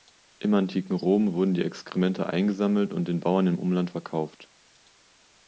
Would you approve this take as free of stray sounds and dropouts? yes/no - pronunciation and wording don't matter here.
yes